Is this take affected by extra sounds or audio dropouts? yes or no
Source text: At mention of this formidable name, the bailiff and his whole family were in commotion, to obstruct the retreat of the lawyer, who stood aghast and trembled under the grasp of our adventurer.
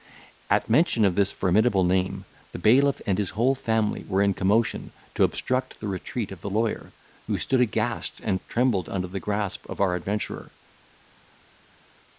no